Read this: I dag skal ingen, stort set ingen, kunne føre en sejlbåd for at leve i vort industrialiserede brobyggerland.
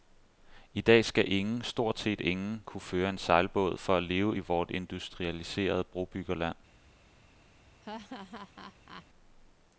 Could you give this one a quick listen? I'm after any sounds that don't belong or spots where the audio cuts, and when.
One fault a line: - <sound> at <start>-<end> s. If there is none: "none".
- laugh at 7.8-9.1 s